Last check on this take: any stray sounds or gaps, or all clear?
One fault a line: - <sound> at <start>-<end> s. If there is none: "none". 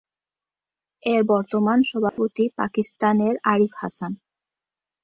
- dropout at 2.1-2.2 s